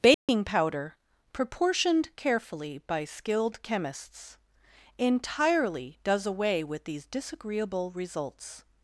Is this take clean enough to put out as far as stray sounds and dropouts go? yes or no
no